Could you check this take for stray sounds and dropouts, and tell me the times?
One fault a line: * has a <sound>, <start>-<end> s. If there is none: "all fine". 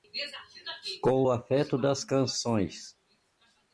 all fine